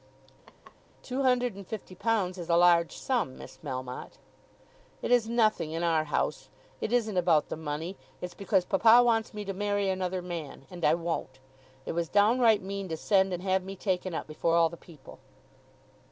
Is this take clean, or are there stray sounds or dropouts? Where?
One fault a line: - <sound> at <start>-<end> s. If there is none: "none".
- laugh at 0.5-0.8 s